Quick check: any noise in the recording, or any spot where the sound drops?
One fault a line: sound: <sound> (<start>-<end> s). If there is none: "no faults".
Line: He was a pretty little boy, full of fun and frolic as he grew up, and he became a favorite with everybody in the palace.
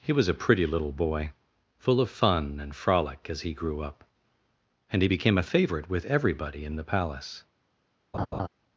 sound: laugh (8.1-8.5 s)